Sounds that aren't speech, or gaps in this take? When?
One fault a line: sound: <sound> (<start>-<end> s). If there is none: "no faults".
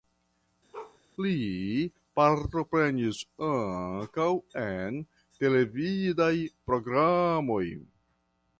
sound: bark (0.7-1.0 s)